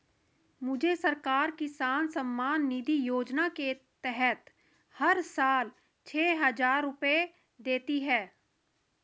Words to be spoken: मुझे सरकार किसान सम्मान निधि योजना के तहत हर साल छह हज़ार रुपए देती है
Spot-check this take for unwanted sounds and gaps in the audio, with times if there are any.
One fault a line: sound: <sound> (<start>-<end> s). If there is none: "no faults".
no faults